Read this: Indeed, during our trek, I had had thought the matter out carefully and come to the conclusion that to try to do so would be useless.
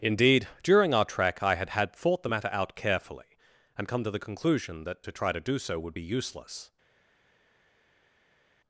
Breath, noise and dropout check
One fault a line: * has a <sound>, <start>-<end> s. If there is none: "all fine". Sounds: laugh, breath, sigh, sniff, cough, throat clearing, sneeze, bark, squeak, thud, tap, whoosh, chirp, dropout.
all fine